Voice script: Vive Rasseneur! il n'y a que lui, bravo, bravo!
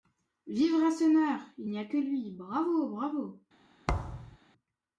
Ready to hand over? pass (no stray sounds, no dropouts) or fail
fail